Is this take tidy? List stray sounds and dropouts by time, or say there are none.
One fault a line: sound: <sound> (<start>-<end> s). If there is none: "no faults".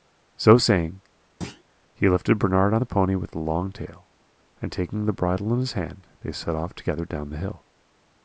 sound: thud (1.4-1.6 s)